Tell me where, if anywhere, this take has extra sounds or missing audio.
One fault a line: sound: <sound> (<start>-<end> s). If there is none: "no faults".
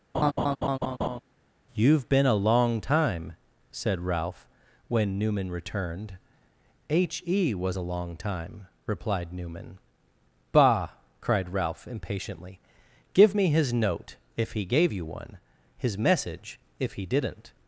sound: laugh (0.1-1.2 s)